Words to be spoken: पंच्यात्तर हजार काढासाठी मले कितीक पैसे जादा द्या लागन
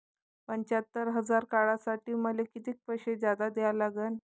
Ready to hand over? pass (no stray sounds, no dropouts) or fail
pass